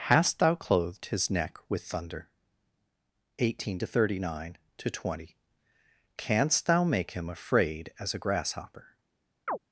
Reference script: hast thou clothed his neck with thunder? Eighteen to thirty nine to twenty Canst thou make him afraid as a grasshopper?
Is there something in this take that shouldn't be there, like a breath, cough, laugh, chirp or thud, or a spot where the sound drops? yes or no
yes